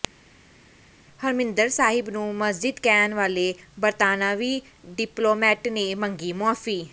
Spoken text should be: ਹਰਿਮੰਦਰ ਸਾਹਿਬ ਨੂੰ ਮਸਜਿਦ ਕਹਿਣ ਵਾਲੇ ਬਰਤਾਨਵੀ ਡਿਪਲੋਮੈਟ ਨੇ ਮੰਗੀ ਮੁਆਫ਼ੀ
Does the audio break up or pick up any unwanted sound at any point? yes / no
no